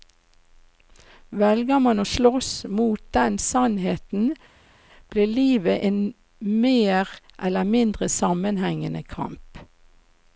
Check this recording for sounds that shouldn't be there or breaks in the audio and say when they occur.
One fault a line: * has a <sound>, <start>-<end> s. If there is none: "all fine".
all fine